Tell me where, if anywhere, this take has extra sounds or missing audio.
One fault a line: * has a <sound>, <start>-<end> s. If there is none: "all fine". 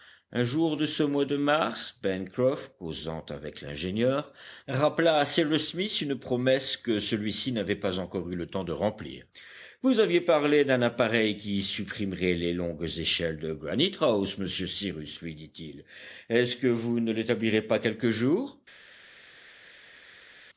all fine